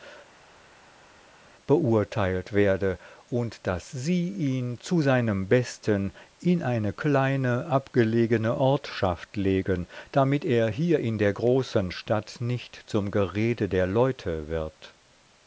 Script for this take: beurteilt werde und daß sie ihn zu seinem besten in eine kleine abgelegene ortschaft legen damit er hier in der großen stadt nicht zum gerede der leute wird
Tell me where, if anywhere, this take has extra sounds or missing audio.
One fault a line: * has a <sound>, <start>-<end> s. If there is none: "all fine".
all fine